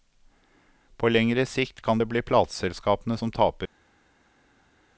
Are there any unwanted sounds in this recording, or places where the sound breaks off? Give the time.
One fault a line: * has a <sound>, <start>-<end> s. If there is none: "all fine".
all fine